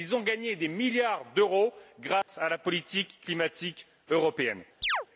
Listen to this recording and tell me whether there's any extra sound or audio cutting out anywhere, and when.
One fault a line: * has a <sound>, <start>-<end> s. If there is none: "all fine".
* has a dropout, 2.2-2.3 s
* has a chirp, 4.8-5.1 s